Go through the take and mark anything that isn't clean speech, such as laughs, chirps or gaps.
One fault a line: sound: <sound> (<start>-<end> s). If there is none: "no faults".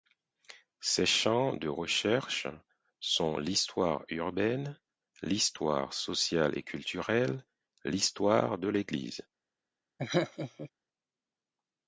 sound: laugh (10.0-10.7 s)